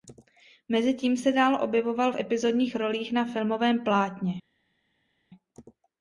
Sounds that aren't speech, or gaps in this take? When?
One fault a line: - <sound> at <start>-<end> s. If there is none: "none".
none